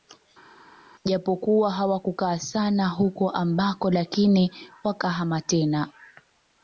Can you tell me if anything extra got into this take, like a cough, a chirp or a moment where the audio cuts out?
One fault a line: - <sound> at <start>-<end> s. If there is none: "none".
none